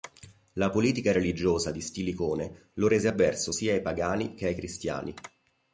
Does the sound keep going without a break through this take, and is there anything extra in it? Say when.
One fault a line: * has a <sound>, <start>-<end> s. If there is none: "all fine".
all fine